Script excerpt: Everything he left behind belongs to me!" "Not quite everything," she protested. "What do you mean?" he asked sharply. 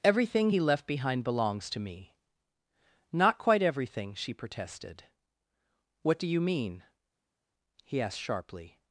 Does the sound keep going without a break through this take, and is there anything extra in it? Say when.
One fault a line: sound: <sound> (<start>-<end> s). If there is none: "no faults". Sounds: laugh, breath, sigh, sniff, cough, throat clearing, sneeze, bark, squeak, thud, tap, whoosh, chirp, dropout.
no faults